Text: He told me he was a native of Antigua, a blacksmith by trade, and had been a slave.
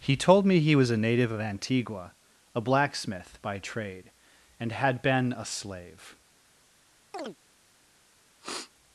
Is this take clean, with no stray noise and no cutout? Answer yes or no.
no